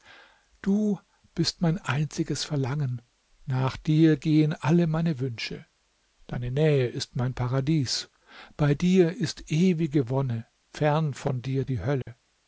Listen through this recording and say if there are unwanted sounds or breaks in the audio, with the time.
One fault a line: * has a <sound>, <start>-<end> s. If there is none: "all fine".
* has a dropout, 12.0-12.1 s